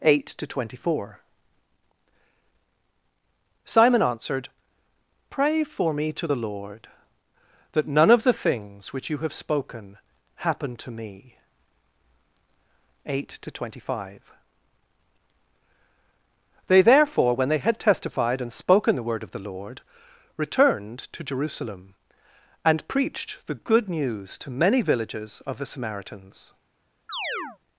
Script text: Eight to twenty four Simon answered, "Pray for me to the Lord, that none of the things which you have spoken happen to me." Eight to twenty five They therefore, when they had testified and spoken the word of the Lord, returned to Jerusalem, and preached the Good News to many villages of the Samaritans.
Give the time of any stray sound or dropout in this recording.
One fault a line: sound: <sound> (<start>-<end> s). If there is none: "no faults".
sound: chirp (27.1-27.6 s)